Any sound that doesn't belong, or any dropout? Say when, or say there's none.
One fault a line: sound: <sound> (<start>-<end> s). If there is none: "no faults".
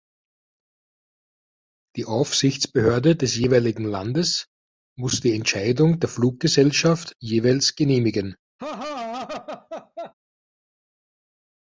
sound: laugh (8.6-10.1 s)